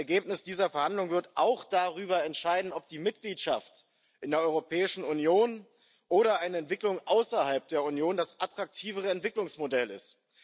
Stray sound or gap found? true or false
false